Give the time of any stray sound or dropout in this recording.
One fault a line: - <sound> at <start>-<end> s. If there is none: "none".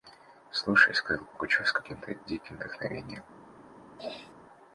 - throat clearing at 4.0-4.3 s